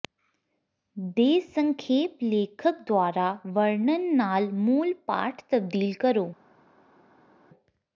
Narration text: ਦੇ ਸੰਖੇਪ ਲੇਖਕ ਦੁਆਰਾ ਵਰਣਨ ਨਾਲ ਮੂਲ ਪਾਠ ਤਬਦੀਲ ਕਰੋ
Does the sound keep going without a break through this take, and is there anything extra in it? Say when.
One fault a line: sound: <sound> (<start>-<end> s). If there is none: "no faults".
no faults